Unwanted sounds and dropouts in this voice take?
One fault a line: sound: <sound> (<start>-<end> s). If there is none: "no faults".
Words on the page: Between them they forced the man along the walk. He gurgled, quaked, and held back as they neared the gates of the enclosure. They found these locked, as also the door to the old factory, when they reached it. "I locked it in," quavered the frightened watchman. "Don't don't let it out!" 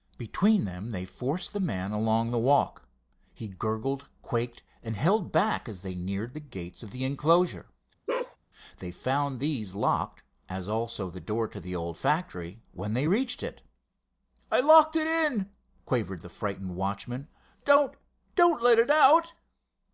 sound: bark (8.1-8.4 s)